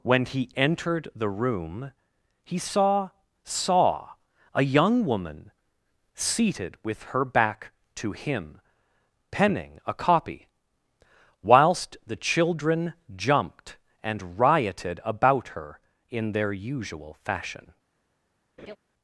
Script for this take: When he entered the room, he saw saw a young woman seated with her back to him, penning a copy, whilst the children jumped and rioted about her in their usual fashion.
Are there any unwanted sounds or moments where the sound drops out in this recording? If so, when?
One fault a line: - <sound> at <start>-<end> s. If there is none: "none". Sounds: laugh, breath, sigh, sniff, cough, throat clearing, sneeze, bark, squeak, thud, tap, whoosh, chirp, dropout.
- laugh at 18.6-18.8 s